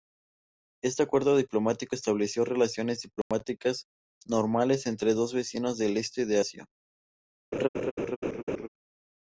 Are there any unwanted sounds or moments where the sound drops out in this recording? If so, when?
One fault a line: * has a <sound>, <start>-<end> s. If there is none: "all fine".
* has a dropout, 3.2-3.3 s
* has a laugh, 7.5-8.7 s